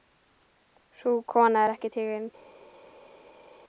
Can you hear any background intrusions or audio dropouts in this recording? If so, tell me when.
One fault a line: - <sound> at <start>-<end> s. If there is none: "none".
none